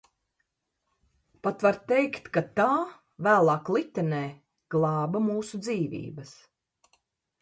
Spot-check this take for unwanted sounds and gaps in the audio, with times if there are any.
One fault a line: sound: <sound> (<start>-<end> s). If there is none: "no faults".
no faults